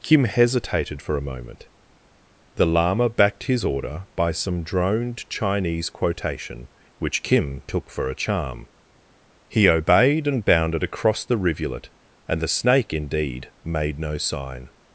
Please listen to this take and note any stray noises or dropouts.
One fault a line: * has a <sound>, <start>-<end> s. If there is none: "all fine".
all fine